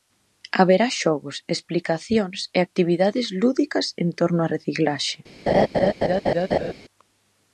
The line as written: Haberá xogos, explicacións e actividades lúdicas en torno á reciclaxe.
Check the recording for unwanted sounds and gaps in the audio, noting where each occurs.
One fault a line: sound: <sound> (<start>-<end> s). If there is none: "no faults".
sound: laugh (5.5-6.7 s)